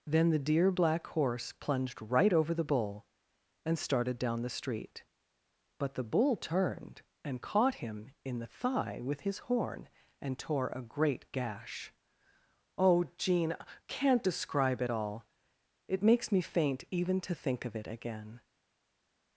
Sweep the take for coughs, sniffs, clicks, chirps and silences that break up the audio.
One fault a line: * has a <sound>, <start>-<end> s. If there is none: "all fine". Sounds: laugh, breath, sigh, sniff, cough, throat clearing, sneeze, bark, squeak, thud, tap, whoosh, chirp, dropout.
all fine